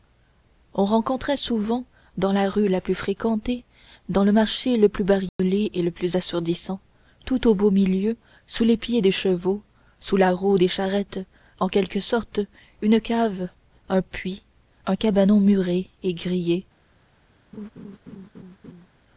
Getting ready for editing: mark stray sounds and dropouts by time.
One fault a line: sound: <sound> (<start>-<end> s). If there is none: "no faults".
sound: dropout (5.3-5.4 s)
sound: laugh (17.5-18.9 s)